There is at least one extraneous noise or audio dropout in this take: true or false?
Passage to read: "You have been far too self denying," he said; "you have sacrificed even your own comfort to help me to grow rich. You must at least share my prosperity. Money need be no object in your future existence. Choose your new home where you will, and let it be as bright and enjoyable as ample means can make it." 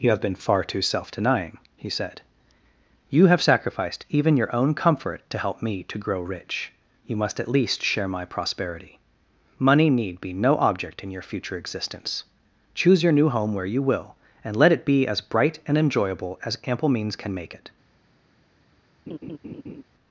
true